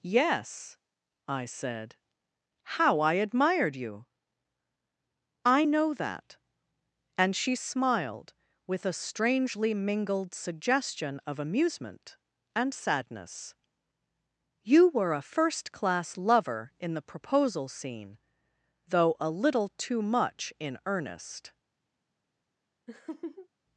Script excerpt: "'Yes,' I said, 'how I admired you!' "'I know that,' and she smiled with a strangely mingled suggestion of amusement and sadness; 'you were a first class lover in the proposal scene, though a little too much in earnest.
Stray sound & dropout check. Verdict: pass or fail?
fail